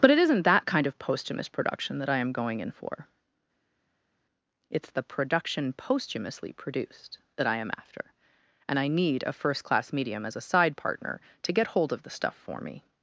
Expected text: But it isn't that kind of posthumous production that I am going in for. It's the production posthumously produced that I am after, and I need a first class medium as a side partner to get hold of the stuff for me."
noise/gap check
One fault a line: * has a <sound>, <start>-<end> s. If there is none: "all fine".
all fine